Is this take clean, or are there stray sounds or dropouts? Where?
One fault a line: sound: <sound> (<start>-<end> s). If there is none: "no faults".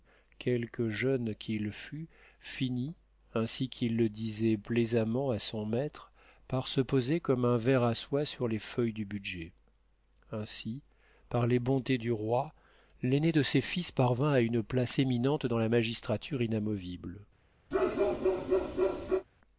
sound: bark (17.7-19.3 s)